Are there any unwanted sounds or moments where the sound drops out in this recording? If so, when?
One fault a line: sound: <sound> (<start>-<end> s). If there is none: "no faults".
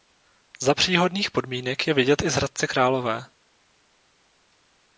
no faults